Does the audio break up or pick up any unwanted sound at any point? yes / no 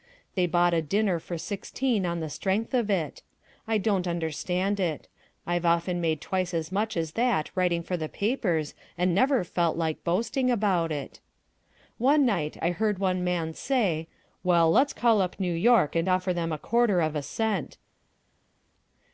no